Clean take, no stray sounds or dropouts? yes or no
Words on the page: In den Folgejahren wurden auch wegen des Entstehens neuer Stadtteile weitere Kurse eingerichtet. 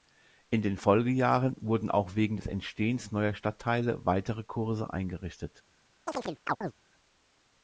no